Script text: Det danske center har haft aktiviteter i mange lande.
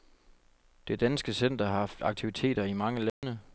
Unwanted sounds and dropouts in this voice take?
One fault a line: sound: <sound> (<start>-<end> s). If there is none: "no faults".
sound: dropout (3.1-3.2 s)